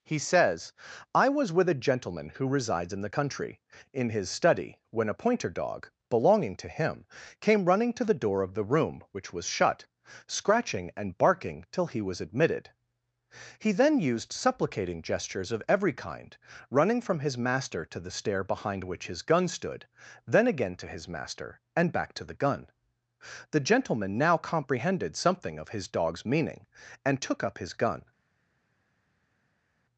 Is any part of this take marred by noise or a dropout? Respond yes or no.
no